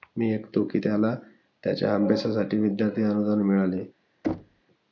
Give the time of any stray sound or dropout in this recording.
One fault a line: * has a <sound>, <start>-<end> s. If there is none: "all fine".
* has a thud, 4.2-4.6 s